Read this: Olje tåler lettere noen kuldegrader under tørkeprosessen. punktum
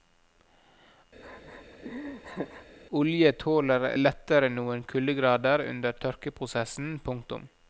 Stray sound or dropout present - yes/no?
yes